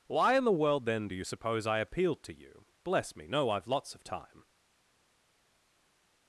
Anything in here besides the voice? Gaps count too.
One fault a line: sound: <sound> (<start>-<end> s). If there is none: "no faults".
no faults